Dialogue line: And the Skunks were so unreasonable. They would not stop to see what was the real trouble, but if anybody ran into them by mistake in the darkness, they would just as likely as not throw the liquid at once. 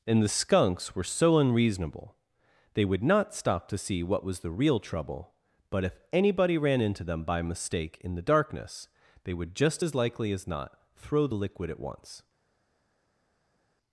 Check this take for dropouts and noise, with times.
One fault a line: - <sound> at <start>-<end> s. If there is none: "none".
none